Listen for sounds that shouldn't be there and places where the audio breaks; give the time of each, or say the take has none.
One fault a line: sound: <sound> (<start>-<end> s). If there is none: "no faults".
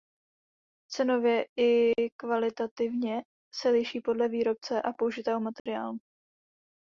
sound: dropout (5.6-5.7 s)